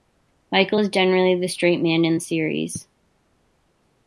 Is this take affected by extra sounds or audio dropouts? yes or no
no